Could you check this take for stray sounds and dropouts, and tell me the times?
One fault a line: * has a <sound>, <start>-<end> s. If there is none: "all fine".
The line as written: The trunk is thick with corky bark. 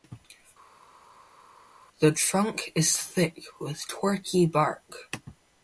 all fine